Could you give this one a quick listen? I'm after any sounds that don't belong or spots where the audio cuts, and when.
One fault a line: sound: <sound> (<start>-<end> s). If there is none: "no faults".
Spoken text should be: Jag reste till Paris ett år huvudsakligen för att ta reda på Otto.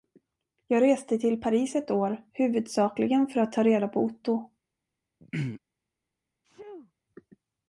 sound: throat clearing (5.2-5.6 s)
sound: sneeze (6.4-6.9 s)